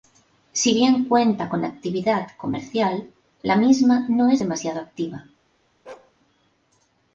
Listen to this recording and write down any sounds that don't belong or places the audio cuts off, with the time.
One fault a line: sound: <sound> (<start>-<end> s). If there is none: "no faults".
sound: bark (5.9-6.1 s)